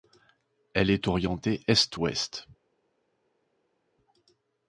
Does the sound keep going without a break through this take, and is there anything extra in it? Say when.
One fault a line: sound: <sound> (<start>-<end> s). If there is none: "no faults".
no faults